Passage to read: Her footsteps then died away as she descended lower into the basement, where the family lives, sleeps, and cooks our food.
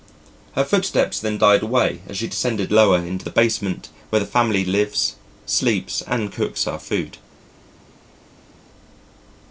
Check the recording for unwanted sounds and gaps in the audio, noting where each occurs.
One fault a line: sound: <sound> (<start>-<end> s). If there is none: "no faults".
no faults